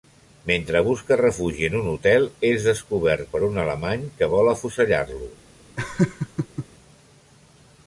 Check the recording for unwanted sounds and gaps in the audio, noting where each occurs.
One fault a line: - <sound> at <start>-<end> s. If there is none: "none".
- laugh at 5.8-6.7 s